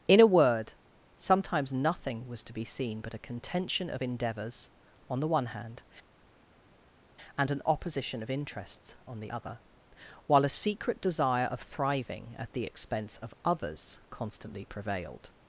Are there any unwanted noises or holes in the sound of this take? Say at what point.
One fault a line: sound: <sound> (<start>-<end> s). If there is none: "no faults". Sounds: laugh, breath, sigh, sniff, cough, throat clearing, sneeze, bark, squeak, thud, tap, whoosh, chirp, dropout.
no faults